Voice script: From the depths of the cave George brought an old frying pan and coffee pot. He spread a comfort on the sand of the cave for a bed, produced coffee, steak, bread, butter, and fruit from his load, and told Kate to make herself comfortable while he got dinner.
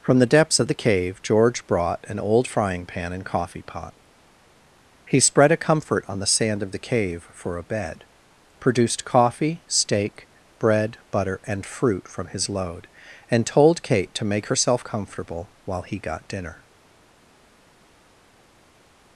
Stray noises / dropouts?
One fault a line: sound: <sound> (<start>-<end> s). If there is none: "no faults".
no faults